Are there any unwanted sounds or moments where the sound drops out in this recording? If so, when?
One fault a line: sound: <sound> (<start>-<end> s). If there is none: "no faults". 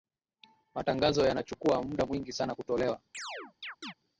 sound: chirp (3.1-3.9 s)